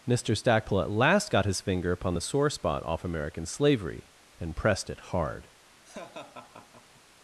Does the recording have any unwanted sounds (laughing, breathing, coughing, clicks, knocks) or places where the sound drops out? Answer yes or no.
yes